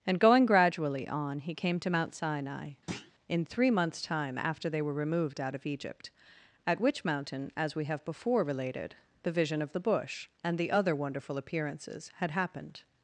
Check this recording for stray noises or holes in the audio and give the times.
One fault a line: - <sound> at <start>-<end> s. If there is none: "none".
- thud at 2.9-3.1 s